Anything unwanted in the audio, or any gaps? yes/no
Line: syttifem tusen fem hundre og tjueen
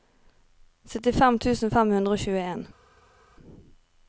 no